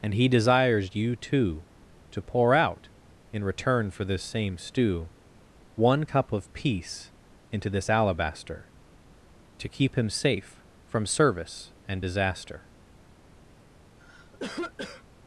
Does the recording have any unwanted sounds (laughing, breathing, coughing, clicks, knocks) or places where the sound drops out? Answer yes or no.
yes